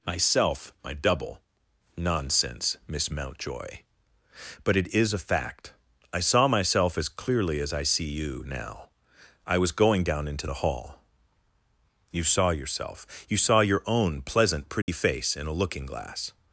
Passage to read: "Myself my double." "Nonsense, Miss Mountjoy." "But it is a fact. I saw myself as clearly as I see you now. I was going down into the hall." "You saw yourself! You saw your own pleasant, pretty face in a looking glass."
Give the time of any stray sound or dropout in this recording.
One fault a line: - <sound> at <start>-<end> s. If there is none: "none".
- dropout at 14.8-14.9 s